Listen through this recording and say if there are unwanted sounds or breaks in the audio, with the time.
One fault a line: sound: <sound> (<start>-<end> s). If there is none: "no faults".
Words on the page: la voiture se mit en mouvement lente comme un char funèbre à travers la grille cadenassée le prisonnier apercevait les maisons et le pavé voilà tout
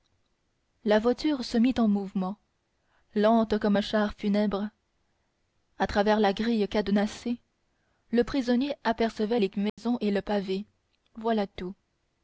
sound: dropout (9.7-9.8 s)